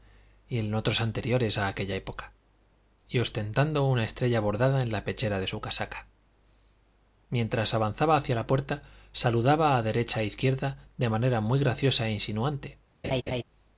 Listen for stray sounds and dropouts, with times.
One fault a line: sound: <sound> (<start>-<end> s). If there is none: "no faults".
sound: laugh (13.0-13.4 s)